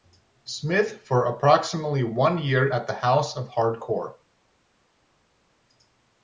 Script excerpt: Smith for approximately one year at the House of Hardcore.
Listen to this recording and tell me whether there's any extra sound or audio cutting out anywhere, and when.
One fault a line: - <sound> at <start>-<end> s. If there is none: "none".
none